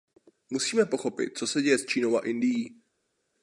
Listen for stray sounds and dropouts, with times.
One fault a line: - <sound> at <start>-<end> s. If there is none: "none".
none